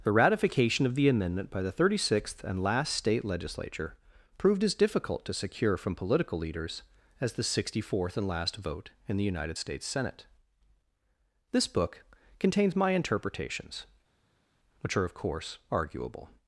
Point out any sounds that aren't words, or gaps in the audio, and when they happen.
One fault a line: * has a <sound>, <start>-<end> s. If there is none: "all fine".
all fine